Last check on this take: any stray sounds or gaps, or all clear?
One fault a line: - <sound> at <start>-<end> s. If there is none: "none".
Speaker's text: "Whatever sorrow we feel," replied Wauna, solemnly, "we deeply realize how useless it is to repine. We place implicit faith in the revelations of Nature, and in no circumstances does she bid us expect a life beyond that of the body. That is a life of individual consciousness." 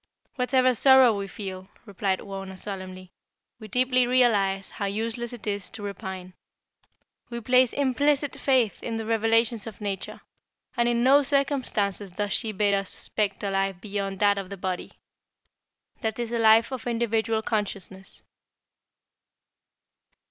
none